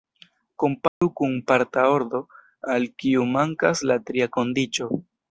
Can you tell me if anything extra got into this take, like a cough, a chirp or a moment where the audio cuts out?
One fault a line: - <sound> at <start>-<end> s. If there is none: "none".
- dropout at 0.9-1.0 s